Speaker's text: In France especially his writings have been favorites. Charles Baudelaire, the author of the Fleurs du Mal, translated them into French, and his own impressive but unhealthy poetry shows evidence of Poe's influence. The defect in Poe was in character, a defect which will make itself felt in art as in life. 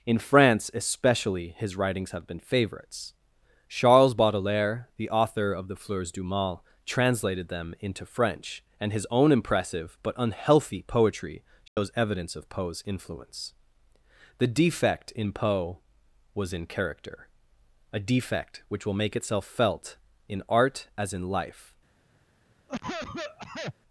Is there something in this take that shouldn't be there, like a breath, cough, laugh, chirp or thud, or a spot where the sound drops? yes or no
yes